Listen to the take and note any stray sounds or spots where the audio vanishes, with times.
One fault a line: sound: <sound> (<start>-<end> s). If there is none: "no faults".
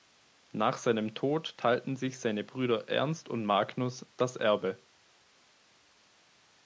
no faults